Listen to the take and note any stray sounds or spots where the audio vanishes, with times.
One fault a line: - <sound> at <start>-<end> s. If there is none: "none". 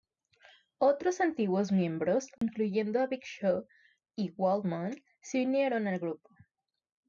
- dropout at 2.4-2.4 s